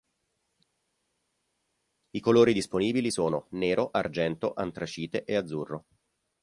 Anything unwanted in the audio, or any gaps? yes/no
no